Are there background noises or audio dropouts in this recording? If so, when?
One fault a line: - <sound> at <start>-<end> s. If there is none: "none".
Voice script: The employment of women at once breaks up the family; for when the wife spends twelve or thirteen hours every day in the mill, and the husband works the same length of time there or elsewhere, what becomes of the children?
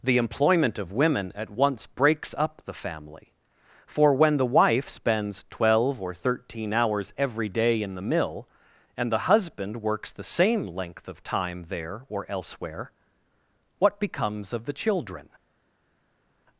none